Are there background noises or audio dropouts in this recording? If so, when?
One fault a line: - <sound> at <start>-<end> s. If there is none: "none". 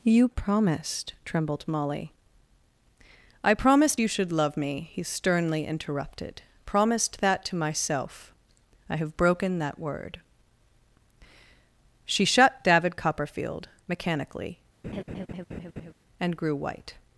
- laugh at 14.8-15.9 s